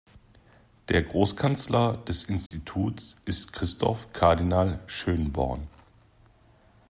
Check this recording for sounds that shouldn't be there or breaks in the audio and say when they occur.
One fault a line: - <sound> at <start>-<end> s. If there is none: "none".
- dropout at 2.5-2.5 s